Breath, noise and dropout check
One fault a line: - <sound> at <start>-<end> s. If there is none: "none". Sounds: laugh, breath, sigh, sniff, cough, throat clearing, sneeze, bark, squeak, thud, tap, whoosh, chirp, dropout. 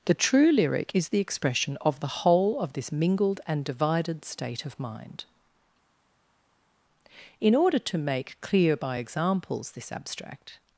none